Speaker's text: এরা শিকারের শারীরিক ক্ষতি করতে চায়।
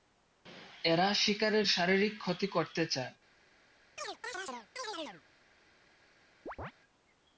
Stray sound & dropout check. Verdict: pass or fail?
fail